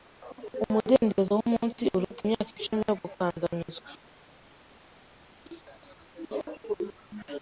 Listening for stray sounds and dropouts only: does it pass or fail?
pass